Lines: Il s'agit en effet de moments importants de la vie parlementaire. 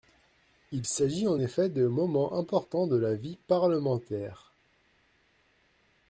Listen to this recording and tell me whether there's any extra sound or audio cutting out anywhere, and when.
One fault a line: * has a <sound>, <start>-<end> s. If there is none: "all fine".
all fine